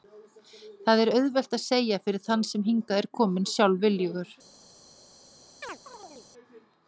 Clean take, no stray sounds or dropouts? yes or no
no